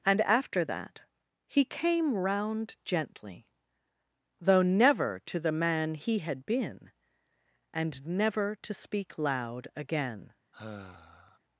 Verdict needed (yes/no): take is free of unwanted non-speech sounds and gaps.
no